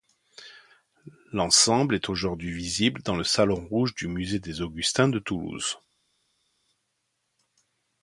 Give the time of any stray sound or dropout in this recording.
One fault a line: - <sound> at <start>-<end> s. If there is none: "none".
none